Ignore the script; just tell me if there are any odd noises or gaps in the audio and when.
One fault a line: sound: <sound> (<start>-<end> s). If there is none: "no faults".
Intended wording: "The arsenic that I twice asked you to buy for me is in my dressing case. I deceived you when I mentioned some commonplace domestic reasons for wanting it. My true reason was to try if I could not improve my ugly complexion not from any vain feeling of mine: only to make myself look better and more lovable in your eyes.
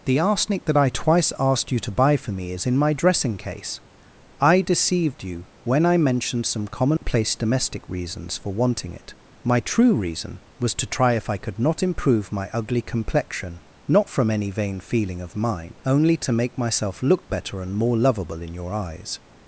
sound: dropout (7.0-7.0 s)